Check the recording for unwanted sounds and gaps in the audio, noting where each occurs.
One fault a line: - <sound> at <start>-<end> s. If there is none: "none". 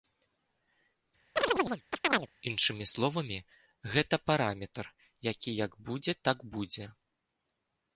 - chirp at 1.4-2.3 s